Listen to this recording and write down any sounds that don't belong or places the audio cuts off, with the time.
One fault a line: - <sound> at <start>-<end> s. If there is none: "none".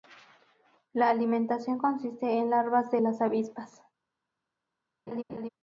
- laugh at 5.1-5.5 s